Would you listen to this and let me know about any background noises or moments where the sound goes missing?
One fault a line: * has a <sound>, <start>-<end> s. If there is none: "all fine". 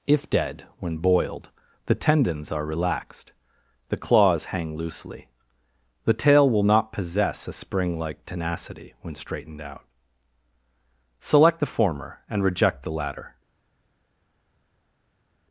all fine